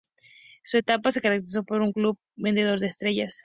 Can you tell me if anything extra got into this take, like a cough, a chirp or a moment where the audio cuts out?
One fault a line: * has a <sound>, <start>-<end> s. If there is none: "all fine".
all fine